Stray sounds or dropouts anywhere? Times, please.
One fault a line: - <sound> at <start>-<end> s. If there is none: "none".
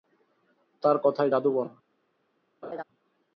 - laugh at 2.6-2.8 s